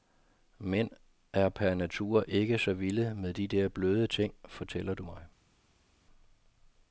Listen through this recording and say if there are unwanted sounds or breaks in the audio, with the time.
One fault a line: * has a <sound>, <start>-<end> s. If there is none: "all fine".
all fine